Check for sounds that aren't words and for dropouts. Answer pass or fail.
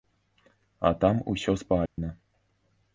fail